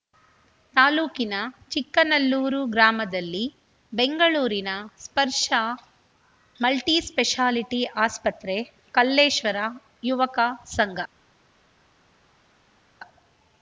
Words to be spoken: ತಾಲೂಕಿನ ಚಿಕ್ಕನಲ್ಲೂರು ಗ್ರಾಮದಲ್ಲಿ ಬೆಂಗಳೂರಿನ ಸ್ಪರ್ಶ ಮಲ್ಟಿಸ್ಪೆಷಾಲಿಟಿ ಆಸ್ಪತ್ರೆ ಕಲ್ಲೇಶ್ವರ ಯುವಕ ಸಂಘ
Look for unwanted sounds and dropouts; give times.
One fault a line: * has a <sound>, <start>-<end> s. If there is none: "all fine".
all fine